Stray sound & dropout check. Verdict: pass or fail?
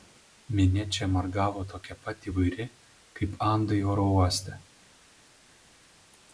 pass